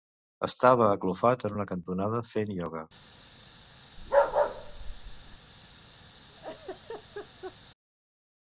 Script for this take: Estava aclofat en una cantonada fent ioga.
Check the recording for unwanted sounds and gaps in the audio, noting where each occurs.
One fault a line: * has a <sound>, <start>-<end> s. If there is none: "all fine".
* has a bark, 4.0-5.4 s
* has a laugh, 6.3-7.6 s